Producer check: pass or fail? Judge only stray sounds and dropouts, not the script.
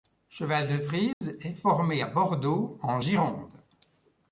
fail